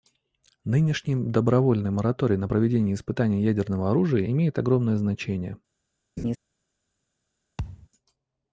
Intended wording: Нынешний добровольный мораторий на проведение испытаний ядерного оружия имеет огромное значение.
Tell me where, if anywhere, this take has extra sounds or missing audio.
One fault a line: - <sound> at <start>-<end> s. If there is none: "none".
- laugh at 6.2-6.4 s
- thud at 7.6-7.9 s